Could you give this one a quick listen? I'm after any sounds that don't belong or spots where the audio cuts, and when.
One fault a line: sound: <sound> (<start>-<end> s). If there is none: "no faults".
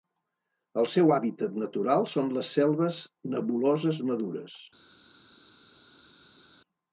no faults